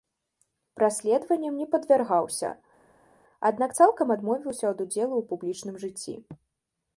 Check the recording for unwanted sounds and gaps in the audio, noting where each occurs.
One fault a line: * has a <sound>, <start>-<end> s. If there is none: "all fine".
all fine